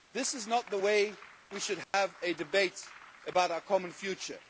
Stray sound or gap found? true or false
true